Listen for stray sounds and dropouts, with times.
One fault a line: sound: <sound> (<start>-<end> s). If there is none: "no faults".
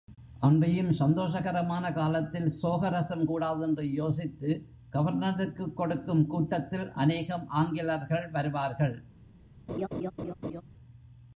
sound: laugh (9.7-10.6 s)